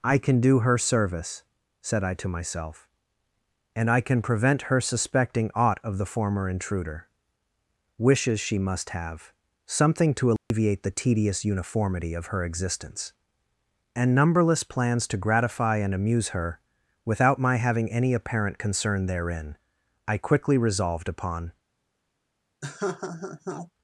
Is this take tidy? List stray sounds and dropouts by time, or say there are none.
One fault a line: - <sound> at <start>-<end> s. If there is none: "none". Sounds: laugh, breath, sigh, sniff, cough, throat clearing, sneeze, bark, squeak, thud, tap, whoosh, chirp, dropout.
- dropout at 10.4-10.5 s
- laugh at 22.6-23.7 s